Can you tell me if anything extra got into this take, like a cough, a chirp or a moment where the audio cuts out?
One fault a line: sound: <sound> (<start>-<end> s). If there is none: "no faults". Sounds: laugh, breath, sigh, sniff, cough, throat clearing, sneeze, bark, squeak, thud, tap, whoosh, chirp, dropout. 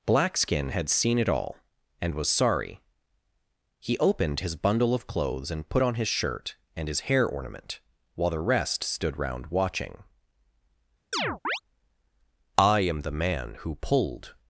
sound: chirp (11.1-11.6 s)